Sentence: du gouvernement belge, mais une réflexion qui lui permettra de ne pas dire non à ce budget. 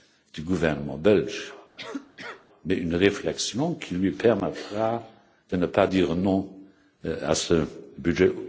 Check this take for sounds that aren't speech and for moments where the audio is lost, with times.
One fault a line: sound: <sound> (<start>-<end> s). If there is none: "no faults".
sound: cough (1.8-2.5 s)